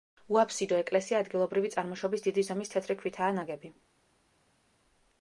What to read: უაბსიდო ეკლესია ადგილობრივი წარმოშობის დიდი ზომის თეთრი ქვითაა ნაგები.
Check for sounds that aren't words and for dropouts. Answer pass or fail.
pass